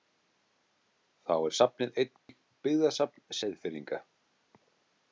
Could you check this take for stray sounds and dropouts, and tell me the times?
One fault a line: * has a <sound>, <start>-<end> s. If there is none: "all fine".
* has a dropout, 2.2-2.3 s